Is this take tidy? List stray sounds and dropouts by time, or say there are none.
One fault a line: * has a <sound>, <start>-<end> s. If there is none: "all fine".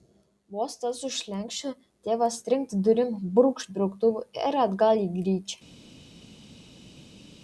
all fine